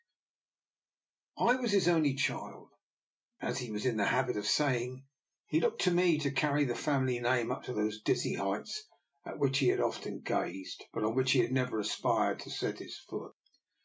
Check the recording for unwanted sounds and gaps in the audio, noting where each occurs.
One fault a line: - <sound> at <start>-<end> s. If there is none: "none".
none